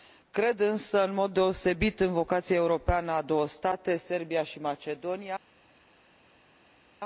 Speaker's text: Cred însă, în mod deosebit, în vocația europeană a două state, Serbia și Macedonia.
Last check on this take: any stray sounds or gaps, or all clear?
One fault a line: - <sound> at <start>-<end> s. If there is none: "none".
none